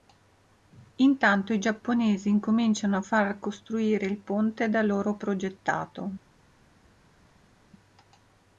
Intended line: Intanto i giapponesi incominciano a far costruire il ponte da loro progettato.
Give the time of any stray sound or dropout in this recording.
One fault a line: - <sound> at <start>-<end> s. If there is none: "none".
none